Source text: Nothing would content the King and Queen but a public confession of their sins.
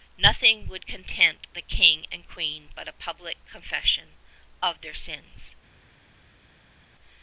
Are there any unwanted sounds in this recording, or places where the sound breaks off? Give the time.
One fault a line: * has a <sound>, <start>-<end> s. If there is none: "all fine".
all fine